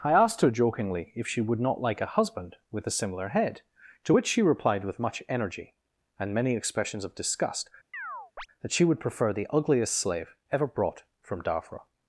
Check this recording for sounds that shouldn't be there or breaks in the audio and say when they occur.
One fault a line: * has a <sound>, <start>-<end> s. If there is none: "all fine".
* has a chirp, 7.9-8.5 s